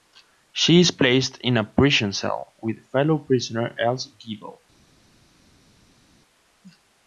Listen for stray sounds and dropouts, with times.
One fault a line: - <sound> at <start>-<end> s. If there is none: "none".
none